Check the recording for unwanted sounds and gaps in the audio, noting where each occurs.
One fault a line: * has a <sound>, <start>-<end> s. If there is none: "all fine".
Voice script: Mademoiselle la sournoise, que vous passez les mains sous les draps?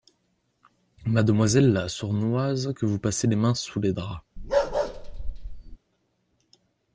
* has a bark, 4.4-5.8 s